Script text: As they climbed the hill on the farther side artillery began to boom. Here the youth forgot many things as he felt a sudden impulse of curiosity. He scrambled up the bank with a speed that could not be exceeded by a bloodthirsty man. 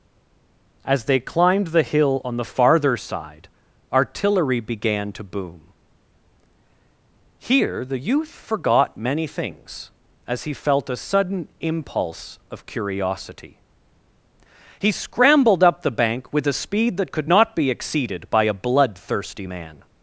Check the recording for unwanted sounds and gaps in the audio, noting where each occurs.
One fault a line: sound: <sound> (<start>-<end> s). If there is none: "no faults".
no faults